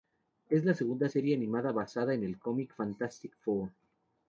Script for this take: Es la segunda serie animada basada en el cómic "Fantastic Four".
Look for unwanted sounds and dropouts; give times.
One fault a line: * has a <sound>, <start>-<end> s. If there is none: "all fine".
all fine